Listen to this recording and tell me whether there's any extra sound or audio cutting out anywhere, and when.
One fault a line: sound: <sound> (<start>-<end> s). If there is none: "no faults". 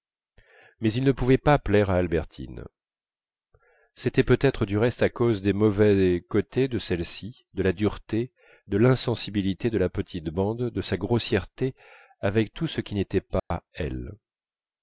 sound: dropout (13.4-13.5 s)